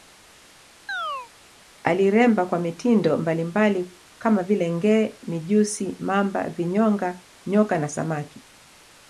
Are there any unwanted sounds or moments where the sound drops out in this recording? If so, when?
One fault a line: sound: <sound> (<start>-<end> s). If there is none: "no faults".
sound: chirp (0.9-1.3 s)